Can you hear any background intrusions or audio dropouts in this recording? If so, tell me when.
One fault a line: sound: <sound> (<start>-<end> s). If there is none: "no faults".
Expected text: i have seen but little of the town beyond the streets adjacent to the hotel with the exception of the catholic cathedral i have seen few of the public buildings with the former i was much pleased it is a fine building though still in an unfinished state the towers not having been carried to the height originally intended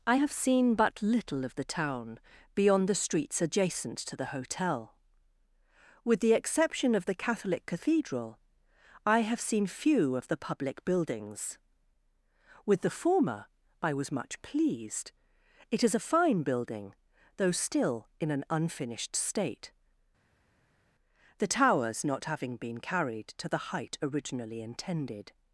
no faults